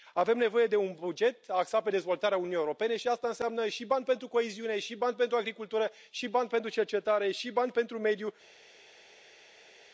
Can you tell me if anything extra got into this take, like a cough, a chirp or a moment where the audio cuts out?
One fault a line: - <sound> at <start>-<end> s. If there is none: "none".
none